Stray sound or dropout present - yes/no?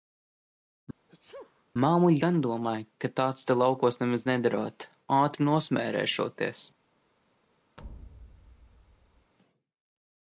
yes